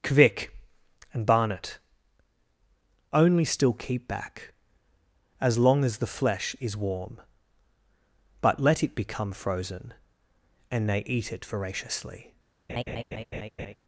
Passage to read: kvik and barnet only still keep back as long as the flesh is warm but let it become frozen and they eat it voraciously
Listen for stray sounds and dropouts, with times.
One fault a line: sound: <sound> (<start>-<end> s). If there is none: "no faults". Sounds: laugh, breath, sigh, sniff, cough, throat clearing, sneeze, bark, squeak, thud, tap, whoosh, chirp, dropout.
sound: laugh (12.7-13.8 s)